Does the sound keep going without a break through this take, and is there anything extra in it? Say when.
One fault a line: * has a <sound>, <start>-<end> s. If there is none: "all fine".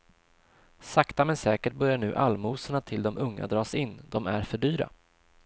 all fine